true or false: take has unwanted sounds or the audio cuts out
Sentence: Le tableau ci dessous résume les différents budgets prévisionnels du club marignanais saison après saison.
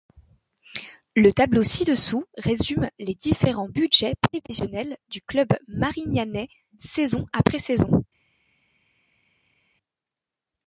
false